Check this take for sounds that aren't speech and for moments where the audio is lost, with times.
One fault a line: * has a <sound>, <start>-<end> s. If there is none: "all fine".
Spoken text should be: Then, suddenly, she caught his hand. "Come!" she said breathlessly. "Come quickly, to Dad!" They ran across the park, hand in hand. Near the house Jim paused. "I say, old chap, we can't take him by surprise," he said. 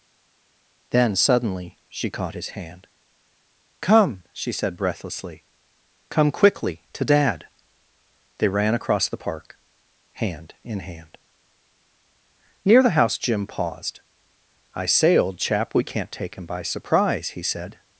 all fine